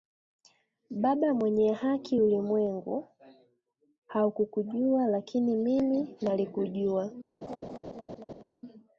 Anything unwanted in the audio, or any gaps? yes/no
yes